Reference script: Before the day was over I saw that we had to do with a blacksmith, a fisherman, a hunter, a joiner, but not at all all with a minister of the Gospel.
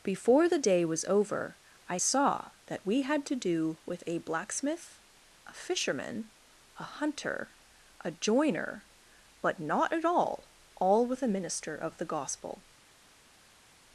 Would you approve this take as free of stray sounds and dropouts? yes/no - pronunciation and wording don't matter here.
yes